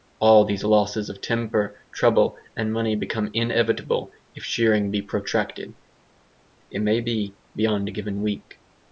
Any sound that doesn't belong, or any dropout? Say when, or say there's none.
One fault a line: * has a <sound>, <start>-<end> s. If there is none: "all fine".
all fine